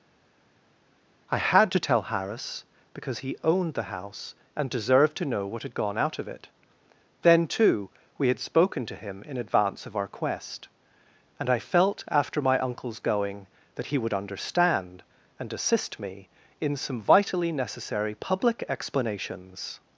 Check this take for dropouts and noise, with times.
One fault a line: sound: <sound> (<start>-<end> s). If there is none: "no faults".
no faults